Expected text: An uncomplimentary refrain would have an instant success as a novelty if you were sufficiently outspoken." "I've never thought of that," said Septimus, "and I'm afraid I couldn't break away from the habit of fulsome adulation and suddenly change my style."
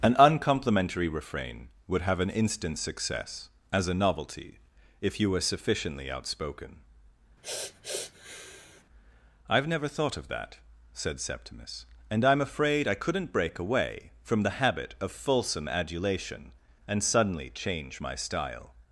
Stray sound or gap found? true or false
true